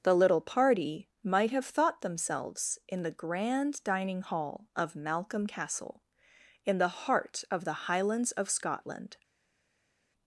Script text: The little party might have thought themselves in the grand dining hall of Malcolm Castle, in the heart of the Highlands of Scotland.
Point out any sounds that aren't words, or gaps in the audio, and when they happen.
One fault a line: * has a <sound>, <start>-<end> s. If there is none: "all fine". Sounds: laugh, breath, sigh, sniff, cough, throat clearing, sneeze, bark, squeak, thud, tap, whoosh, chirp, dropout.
all fine